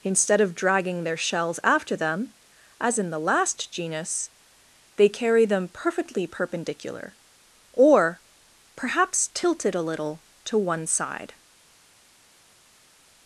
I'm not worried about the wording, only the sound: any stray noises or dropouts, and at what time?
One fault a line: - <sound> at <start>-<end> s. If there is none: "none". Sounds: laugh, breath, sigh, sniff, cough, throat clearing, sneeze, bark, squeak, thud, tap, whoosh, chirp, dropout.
none